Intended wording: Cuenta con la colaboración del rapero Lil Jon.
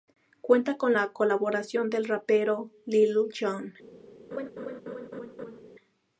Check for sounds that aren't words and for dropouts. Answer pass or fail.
fail